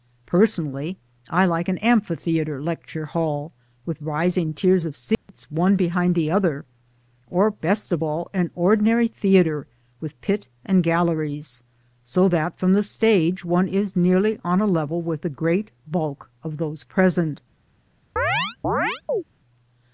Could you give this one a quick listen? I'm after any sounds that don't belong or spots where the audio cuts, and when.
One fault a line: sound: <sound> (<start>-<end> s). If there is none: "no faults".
sound: dropout (5.1-5.3 s)
sound: chirp (18.2-19.2 s)